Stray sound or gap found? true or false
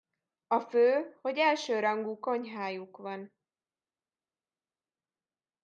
false